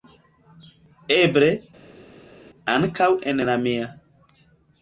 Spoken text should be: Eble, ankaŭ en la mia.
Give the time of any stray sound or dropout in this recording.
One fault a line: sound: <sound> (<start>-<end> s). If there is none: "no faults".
no faults